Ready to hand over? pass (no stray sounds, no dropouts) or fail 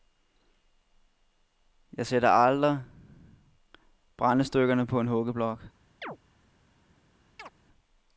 fail